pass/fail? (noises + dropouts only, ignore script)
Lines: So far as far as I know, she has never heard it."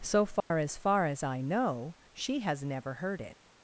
fail